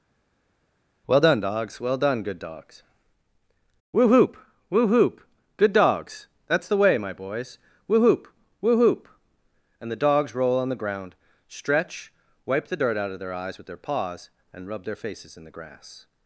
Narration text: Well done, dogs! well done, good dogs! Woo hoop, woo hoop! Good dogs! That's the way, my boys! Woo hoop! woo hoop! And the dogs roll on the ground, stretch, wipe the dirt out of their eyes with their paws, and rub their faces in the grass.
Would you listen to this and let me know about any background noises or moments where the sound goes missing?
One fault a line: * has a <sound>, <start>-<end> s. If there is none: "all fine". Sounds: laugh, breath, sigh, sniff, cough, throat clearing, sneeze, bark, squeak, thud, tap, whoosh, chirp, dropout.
all fine